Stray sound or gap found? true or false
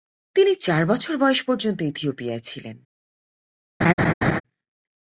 true